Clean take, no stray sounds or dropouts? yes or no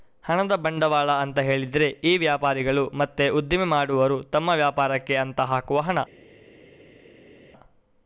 yes